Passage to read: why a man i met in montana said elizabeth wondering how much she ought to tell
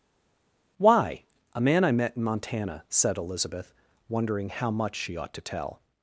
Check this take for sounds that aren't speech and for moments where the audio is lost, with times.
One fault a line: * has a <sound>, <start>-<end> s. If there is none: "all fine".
all fine